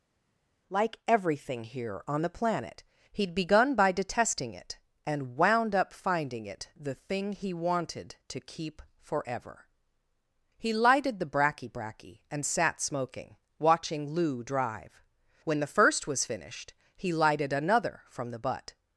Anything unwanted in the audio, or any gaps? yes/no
no